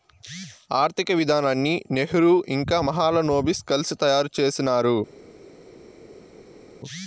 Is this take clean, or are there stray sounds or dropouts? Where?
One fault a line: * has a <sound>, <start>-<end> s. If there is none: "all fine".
all fine